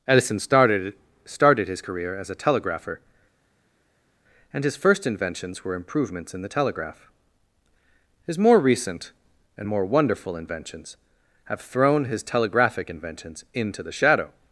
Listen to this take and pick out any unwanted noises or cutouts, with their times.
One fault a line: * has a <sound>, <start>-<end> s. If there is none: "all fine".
all fine